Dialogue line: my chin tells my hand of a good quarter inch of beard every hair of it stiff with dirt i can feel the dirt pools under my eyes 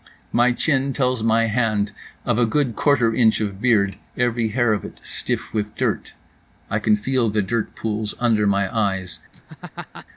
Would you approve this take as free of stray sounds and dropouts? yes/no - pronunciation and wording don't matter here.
no